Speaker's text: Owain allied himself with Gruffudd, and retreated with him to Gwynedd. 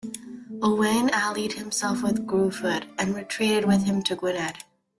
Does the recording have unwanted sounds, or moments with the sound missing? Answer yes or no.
no